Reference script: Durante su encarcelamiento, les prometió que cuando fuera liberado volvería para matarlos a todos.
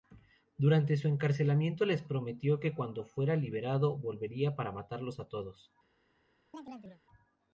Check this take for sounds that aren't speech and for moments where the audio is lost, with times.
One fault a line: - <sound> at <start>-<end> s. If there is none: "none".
- chirp at 6.5-7.0 s